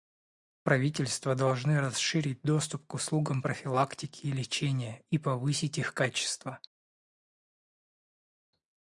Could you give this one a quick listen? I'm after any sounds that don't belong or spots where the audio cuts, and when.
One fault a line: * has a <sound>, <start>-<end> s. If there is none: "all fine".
all fine